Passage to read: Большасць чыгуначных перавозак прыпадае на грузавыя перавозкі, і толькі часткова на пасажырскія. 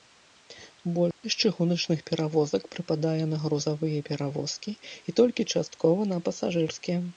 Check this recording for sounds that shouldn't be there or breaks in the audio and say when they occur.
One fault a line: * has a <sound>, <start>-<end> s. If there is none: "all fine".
* has a dropout, 1.1-1.2 s